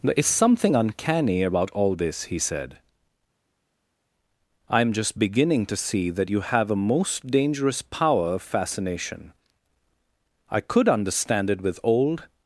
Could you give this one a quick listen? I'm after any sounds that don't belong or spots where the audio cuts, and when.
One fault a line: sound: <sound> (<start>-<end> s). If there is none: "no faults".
no faults